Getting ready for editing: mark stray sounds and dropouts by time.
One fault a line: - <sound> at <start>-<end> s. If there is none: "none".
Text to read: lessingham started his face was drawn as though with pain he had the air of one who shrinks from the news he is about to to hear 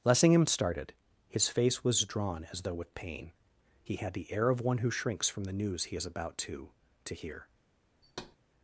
- thud at 8.0-8.4 s